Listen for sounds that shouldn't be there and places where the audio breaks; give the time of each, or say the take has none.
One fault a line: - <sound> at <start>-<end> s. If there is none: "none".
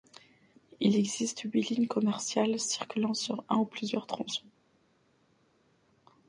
none